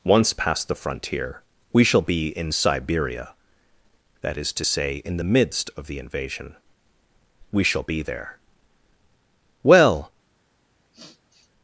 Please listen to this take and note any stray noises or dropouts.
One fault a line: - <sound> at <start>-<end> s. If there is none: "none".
- sniff at 10.9-11.5 s